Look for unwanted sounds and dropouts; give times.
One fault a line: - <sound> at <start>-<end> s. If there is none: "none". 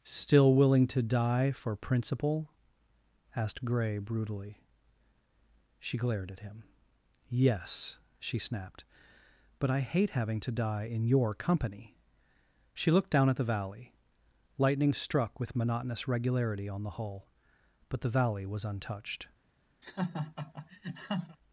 - laugh at 19.8-21.4 s